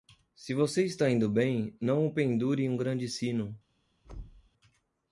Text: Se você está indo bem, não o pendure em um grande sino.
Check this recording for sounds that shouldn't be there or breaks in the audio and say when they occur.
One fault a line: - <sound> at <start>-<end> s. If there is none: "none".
- thud at 4.0-4.5 s